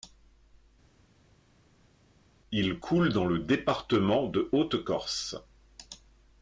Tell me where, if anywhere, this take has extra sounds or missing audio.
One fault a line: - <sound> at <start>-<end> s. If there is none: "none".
none